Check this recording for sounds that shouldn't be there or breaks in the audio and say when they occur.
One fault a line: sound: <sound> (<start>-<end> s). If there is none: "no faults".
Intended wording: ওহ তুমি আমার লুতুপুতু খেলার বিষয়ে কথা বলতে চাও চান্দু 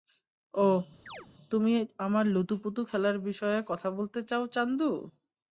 sound: chirp (1.1-1.3 s)